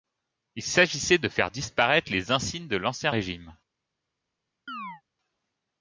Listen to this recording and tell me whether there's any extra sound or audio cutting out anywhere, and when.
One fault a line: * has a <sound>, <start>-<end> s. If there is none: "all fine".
* has a chirp, 4.7-5.0 s